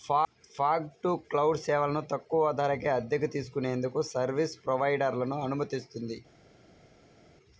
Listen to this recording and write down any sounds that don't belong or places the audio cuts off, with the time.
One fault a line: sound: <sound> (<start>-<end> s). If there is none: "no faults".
no faults